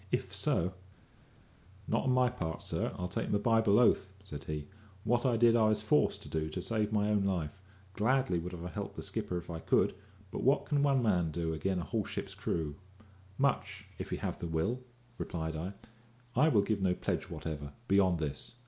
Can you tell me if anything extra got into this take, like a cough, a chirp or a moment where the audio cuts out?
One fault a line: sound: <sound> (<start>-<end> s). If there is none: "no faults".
no faults